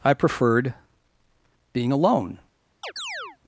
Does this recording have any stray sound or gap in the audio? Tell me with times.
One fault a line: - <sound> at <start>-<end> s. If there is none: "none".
- chirp at 2.8-3.4 s